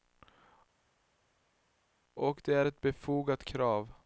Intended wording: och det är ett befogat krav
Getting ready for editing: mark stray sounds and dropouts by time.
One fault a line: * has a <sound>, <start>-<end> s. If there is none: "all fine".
all fine